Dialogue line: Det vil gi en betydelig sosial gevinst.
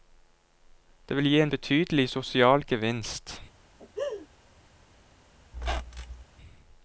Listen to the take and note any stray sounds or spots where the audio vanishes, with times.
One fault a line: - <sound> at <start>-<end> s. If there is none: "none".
- laugh at 3.8-4.3 s
- squeak at 5.5-6.2 s